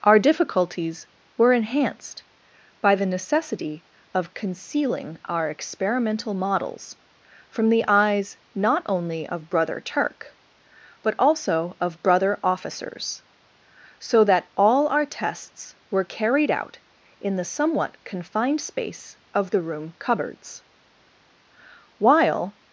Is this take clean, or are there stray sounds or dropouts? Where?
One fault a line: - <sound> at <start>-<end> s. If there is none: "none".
none